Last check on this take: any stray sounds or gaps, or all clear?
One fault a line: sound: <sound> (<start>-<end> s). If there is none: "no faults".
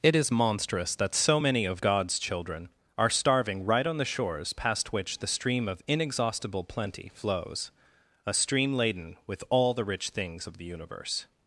no faults